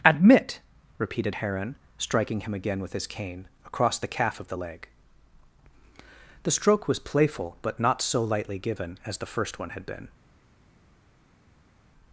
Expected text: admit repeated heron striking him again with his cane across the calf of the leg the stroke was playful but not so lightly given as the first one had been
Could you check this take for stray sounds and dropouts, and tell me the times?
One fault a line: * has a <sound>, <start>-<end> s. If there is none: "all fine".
all fine